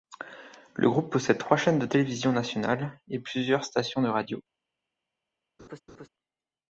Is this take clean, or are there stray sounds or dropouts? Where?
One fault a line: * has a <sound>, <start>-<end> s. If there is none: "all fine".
* has a laugh, 5.6-6.1 s